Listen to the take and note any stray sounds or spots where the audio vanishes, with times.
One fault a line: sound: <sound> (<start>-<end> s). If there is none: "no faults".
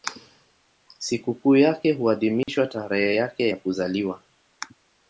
sound: dropout (2.4-2.5 s)